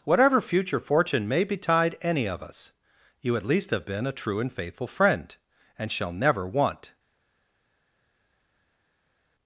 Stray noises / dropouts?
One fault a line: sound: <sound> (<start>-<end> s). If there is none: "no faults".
no faults